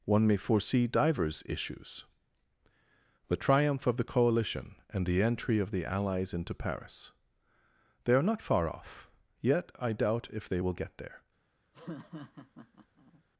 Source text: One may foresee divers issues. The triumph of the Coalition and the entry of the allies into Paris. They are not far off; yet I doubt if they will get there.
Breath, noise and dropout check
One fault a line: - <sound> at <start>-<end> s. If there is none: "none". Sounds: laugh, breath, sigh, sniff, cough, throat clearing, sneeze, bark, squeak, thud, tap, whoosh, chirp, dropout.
- laugh at 11.7-13.2 s